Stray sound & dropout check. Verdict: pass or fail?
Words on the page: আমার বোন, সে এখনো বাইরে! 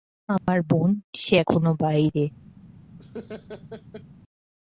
fail